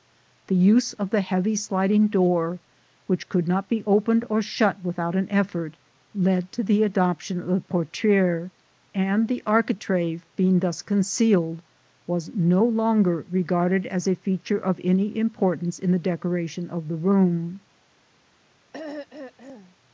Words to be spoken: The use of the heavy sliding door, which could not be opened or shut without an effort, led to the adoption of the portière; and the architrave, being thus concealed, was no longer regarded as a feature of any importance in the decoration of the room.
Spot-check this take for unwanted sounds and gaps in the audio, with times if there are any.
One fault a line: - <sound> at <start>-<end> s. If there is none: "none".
- throat clearing at 18.7-19.8 s